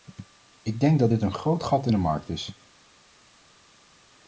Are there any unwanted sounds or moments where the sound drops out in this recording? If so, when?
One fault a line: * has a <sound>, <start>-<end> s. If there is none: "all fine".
all fine